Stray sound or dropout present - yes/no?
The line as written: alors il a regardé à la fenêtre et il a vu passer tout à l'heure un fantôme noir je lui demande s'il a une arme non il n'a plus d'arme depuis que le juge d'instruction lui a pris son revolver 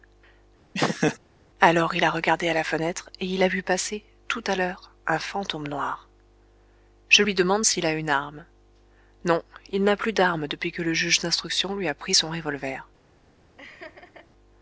yes